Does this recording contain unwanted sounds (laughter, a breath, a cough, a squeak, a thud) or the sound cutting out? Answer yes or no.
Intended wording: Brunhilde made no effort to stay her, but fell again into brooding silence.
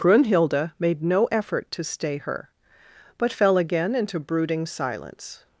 no